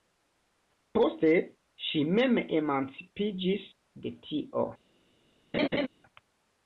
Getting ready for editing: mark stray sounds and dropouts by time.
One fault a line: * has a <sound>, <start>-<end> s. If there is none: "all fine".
* has a laugh, 5.5-5.9 s